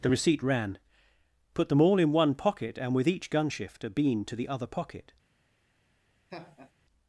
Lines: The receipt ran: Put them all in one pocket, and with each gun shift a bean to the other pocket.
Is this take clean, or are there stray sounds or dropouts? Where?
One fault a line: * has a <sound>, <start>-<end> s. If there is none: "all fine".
* has a laugh, 6.3-6.7 s